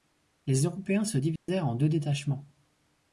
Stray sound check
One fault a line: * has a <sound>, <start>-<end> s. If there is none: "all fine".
* has a dropout, 1.4-1.5 s